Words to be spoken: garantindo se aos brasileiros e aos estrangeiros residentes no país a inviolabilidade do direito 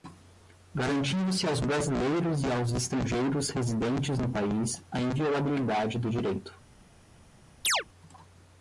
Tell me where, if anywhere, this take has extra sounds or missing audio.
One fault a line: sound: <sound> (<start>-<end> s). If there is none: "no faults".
sound: chirp (7.6-7.8 s)